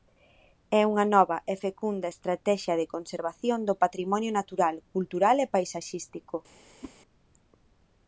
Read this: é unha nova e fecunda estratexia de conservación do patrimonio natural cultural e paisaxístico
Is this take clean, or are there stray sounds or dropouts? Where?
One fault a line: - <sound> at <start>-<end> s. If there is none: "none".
- whoosh at 6.8-6.9 s